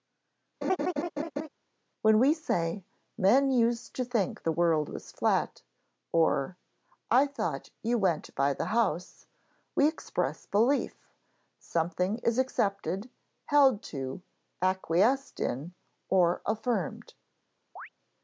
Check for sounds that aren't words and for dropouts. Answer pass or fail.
fail